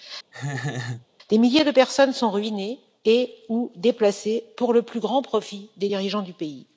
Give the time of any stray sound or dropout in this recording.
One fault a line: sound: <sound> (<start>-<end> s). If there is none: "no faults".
sound: laugh (0.3-1.1 s)